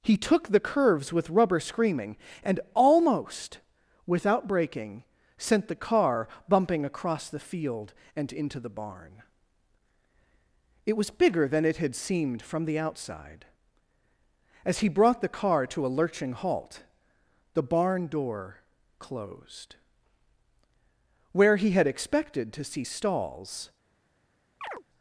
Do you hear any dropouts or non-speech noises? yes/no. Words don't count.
yes